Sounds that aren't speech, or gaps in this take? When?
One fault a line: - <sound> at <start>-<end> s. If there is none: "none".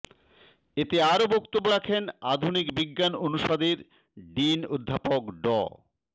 none